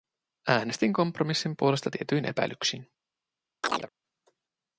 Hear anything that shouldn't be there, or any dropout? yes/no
yes